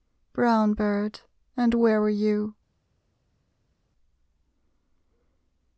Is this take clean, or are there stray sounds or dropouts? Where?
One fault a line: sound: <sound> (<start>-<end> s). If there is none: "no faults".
no faults